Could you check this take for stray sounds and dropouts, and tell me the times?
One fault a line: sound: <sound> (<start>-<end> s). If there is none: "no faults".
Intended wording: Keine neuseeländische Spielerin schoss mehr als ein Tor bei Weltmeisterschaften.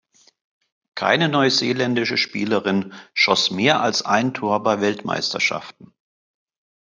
no faults